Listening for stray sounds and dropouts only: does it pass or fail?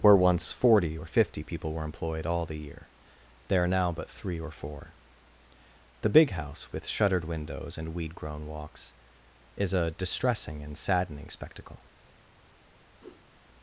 fail